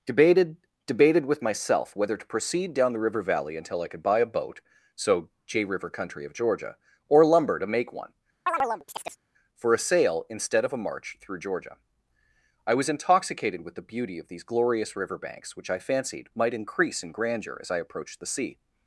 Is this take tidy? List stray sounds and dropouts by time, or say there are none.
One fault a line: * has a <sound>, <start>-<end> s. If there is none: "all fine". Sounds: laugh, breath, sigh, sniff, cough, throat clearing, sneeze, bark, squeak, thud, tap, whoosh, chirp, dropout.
* has a chirp, 8.5-9.2 s